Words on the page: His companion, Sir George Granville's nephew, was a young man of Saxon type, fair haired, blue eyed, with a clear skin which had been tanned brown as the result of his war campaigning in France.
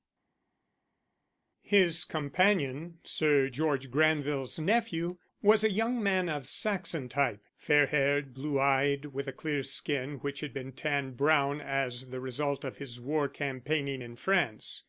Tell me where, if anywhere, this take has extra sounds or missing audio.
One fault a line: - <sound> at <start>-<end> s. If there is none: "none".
none